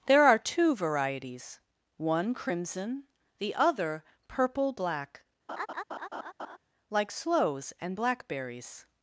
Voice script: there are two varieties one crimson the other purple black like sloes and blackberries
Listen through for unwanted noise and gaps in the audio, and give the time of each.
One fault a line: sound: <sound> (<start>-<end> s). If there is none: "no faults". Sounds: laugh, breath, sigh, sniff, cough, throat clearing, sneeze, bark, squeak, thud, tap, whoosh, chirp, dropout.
sound: laugh (5.5-6.6 s)